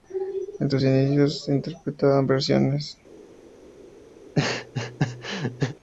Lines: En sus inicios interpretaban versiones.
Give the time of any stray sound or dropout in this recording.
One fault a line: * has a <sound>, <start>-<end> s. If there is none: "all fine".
* has a laugh, 4.2-5.7 s